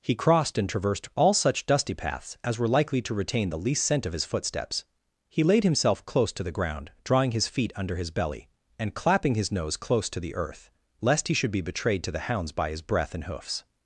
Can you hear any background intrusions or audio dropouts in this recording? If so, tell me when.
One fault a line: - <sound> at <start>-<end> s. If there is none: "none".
none